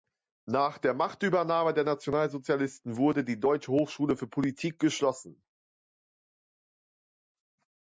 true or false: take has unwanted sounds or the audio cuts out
false